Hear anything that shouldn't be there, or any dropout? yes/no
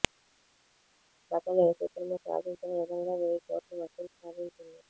no